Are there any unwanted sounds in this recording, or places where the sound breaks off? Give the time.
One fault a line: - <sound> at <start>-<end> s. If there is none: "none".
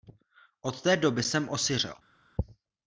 none